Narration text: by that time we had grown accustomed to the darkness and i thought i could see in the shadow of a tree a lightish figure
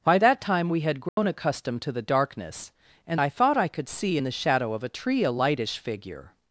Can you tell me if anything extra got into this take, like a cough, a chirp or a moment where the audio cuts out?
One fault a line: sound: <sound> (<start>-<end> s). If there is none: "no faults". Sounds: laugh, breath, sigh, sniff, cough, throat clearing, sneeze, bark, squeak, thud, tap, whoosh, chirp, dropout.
sound: dropout (1.1-1.2 s)